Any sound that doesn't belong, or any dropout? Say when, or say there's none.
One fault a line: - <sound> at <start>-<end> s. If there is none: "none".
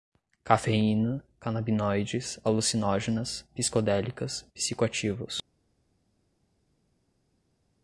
none